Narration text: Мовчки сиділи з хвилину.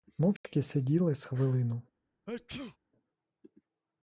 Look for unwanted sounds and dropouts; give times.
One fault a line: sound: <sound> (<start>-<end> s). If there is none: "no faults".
sound: dropout (0.4-0.4 s)
sound: sneeze (2.3-2.8 s)